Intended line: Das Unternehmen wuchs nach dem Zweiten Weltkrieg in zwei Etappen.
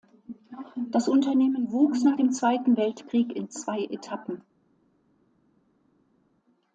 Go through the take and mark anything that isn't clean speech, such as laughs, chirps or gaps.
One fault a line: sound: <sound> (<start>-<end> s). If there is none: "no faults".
no faults